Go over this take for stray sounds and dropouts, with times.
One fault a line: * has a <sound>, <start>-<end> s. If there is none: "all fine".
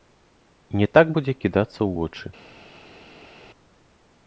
all fine